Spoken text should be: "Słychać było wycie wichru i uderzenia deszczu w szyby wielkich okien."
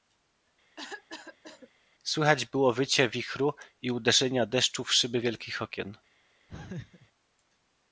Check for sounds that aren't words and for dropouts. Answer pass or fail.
fail